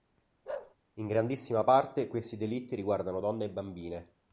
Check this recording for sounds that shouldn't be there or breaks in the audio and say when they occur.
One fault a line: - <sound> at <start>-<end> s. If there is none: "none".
- bark at 0.5-0.8 s